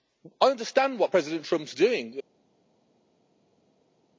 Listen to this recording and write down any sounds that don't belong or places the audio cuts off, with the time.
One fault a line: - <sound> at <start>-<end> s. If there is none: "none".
none